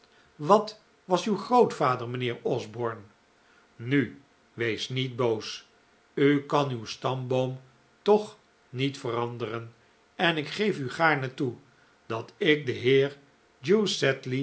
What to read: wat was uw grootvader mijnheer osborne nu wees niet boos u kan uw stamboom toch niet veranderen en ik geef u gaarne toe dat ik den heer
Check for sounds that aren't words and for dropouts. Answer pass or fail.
pass